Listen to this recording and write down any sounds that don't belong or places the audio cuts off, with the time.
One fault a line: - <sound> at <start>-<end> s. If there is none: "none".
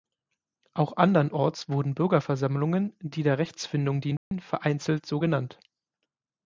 - dropout at 4.2-4.3 s